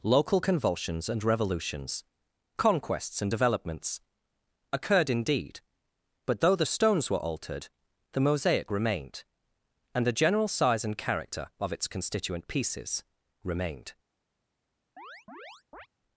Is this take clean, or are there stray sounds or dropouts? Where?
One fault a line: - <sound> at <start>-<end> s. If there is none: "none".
- chirp at 15.0-15.9 s